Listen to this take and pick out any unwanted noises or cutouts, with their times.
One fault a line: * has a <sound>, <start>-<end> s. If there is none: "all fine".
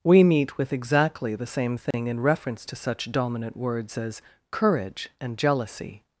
* has a dropout, 1.9-1.9 s